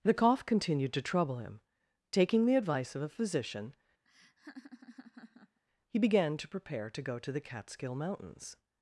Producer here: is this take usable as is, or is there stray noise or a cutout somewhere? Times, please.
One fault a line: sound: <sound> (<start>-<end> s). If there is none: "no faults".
sound: laugh (4.0-5.6 s)